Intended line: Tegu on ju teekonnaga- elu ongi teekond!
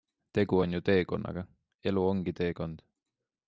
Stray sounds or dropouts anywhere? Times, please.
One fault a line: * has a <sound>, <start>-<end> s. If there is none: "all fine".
all fine